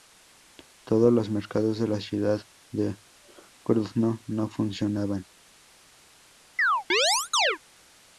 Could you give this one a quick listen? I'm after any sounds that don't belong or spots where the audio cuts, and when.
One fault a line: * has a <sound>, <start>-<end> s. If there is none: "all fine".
* has a chirp, 6.6-7.6 s